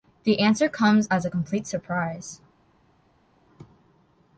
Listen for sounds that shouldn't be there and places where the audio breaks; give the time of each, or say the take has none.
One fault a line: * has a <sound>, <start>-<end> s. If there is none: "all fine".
all fine